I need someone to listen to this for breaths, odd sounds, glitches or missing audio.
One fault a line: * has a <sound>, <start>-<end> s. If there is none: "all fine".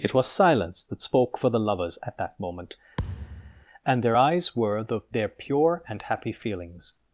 * has a thud, 3.0-3.7 s